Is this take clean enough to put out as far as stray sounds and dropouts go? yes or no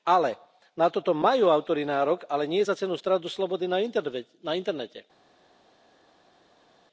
yes